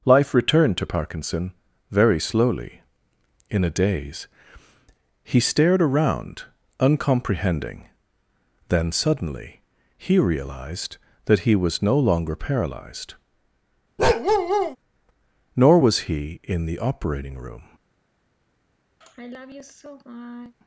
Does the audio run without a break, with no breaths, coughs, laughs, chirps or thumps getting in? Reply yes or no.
no